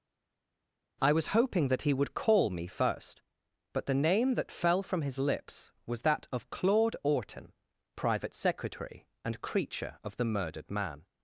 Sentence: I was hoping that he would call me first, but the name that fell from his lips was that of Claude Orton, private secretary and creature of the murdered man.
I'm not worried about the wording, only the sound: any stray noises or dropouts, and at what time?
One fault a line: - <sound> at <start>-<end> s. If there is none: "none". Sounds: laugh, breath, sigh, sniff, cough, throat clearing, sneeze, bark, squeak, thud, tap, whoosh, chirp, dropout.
none